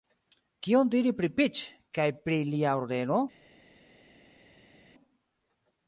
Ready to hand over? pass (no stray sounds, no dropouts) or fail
pass